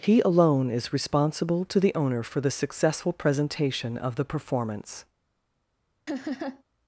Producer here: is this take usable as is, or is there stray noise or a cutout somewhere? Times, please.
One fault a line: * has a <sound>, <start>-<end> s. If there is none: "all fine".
* has a laugh, 6.1-6.6 s